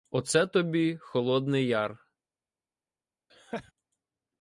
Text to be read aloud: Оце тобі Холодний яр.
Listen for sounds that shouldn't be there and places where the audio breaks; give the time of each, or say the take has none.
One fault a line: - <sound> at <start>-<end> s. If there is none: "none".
- laugh at 3.3-3.7 s